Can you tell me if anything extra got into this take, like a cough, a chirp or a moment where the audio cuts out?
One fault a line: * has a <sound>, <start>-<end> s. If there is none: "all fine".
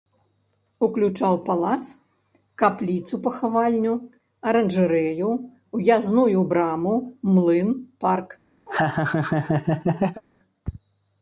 * has a laugh, 8.7-10.2 s